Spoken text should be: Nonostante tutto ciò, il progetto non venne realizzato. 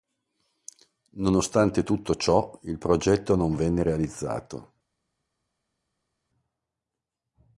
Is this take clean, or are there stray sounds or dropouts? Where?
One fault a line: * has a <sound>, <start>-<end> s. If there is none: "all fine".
all fine